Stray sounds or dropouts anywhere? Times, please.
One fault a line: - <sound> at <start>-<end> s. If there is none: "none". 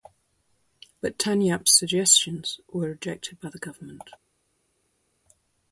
none